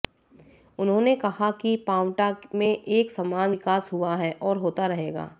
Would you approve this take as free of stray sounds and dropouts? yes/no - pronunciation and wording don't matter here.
yes